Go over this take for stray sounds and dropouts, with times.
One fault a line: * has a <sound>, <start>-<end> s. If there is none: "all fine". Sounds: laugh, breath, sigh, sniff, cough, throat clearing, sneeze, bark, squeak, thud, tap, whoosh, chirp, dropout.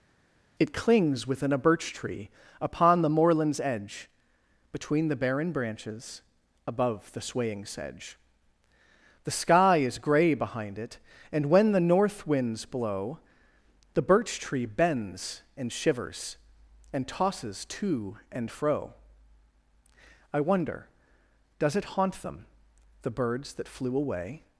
all fine